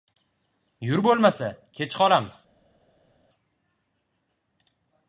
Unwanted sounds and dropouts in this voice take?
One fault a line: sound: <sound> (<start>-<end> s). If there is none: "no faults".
no faults